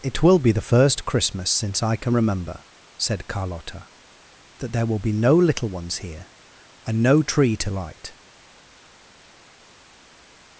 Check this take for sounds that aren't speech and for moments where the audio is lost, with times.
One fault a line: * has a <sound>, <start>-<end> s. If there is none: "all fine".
all fine